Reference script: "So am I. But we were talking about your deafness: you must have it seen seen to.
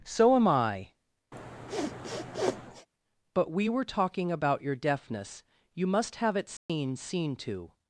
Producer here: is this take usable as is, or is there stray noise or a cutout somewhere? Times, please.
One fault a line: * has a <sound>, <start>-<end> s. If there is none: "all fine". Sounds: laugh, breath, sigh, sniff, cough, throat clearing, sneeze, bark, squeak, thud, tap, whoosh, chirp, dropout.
* has a sniff, 1.3-2.9 s
* has a dropout, 6.6-6.7 s